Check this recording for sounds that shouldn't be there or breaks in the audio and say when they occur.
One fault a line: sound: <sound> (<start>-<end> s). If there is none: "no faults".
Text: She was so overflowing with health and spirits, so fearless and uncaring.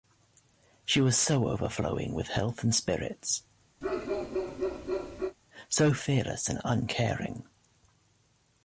sound: bark (3.8-5.4 s)